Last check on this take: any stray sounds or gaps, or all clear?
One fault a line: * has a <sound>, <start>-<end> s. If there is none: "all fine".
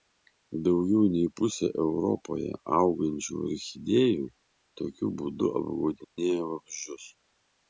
* has a dropout, 6.0-6.2 s